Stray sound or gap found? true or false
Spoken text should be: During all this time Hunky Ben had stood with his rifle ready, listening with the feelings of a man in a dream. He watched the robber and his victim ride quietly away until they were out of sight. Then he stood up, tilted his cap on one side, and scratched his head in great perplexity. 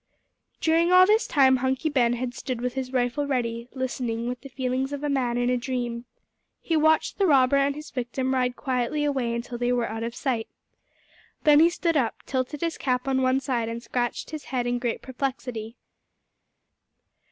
false